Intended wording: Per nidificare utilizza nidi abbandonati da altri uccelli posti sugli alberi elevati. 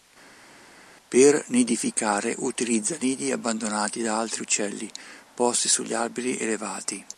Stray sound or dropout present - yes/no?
no